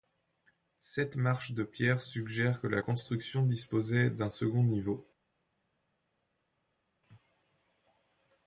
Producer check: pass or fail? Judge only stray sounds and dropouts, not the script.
pass